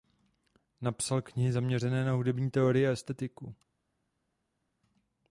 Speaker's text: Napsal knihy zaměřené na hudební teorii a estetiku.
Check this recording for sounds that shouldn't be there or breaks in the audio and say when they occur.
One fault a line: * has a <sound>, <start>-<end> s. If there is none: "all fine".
all fine